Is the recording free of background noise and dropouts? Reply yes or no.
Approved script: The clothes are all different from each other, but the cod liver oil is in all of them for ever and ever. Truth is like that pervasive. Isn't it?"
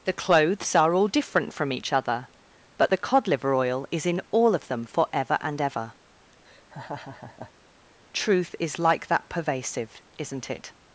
no